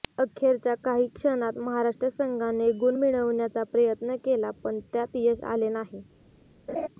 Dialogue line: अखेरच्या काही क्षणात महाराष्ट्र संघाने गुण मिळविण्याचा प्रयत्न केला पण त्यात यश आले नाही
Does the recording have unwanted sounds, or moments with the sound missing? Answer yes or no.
yes